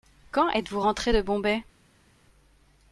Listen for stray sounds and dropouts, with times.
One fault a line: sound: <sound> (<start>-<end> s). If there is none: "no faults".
no faults